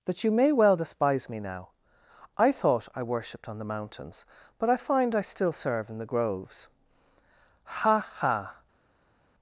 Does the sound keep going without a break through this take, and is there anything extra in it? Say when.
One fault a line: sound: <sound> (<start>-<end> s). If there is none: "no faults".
no faults